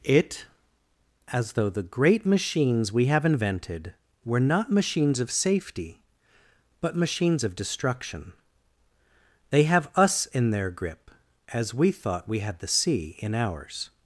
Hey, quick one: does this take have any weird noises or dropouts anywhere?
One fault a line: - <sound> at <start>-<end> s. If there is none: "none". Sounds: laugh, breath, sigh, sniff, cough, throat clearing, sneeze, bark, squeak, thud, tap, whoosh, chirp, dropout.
none